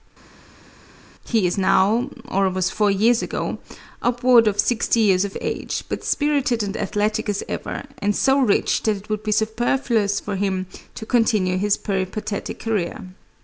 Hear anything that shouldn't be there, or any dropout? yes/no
no